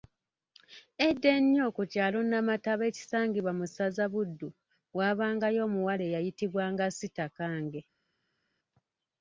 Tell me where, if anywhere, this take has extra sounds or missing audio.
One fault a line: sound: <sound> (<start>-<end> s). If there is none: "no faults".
no faults